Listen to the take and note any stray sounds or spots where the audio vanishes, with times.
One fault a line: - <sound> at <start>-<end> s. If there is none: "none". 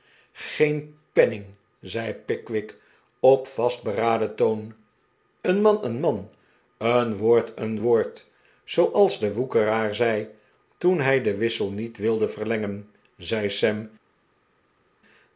none